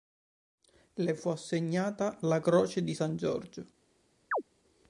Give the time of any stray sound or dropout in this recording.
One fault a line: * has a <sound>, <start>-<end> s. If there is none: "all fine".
* has a chirp, 4.3-4.4 s